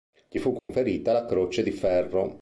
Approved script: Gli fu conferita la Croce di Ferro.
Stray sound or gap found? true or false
true